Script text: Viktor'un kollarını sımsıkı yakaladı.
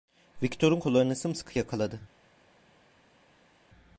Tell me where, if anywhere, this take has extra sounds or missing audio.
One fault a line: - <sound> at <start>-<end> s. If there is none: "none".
none